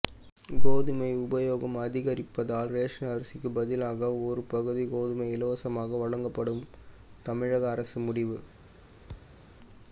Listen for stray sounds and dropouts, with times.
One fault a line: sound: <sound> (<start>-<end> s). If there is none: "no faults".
sound: thud (9.1-9.5 s)